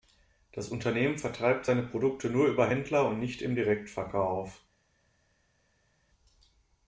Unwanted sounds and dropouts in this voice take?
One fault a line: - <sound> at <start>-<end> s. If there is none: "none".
none